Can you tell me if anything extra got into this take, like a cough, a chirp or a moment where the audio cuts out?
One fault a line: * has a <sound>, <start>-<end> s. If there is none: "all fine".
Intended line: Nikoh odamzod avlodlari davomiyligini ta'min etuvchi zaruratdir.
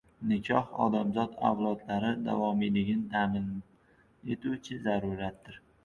all fine